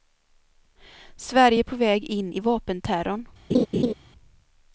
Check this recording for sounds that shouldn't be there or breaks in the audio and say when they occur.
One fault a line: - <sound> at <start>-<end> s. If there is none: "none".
- laugh at 3.5-3.9 s